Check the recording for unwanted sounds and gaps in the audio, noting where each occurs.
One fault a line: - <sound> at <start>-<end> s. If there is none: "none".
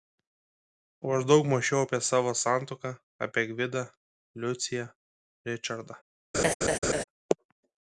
- laugh at 6.3-7.0 s